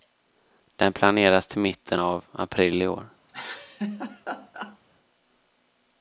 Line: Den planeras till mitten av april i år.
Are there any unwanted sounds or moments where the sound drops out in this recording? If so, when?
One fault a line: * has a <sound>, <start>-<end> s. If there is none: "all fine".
* has a laugh, 3.3-4.8 s